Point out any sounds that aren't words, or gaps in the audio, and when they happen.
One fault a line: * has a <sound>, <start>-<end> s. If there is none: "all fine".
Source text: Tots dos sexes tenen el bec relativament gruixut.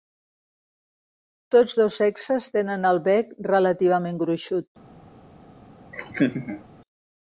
* has a laugh, 5.9-6.6 s